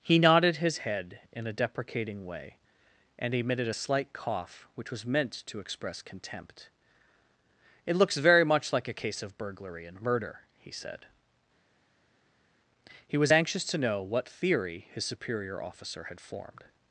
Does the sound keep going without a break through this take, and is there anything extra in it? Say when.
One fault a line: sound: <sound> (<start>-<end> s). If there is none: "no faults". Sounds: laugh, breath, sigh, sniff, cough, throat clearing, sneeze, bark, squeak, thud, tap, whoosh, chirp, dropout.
no faults